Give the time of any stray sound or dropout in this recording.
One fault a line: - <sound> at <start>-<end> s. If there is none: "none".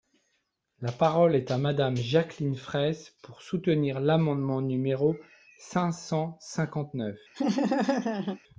- laugh at 7.3-8.4 s